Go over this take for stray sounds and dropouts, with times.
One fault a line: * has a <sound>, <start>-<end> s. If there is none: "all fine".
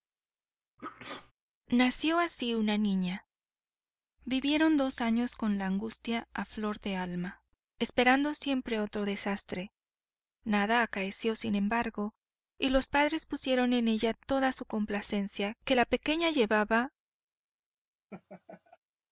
* has a sneeze, 0.8-1.3 s
* has a laugh, 18.1-18.8 s